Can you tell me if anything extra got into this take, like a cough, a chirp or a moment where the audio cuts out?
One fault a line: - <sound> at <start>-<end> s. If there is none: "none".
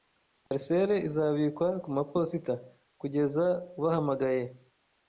- dropout at 0.5-0.5 s